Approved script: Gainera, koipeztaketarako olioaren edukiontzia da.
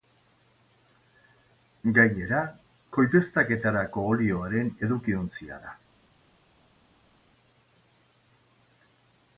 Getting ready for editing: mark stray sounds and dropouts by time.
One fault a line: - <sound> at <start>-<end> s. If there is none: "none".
none